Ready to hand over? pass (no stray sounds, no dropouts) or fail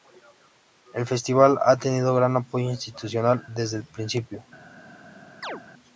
fail